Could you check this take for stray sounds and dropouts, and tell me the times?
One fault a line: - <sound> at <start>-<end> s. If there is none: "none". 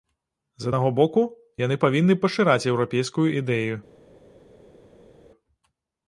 none